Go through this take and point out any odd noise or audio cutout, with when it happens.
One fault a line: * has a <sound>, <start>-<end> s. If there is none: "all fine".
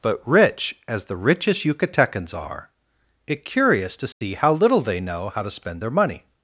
* has a dropout, 4.1-4.2 s